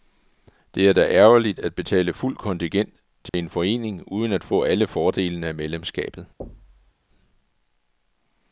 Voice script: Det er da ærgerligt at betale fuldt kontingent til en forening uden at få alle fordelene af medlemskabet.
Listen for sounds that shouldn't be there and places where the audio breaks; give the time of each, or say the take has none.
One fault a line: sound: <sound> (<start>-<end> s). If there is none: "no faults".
sound: dropout (3.3-3.3 s)
sound: thud (6.4-6.9 s)